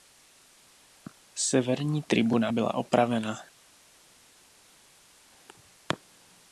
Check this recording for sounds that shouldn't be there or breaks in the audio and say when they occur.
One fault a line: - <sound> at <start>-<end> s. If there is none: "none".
none